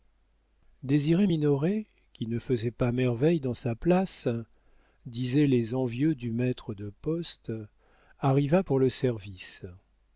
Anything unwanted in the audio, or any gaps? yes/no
no